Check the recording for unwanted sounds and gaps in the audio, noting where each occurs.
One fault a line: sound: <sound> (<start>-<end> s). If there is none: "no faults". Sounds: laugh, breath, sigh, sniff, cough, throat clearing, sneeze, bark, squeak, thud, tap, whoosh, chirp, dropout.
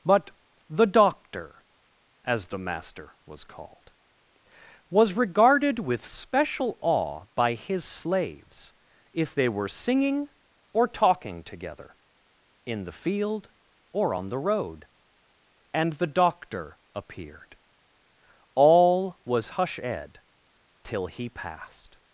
no faults